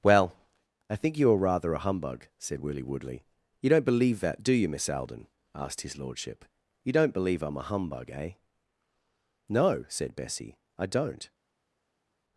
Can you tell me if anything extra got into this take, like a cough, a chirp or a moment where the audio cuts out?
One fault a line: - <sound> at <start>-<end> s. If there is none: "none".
none